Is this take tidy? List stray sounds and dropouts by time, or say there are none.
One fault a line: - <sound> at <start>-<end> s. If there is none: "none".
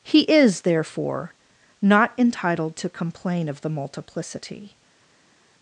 none